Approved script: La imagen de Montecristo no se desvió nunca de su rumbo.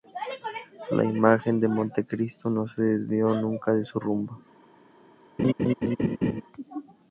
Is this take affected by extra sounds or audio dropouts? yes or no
yes